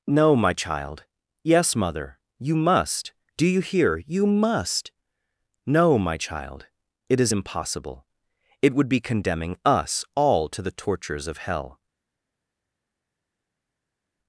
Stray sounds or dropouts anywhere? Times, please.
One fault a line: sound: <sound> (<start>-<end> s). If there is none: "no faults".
no faults